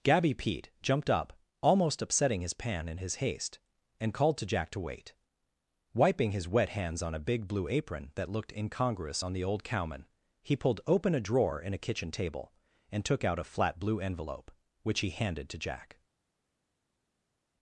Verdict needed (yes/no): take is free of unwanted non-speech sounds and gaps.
yes